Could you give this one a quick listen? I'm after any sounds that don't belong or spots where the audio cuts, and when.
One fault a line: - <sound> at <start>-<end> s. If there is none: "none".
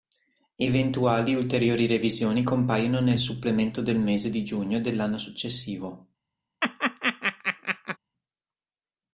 - laugh at 6.6-8.0 s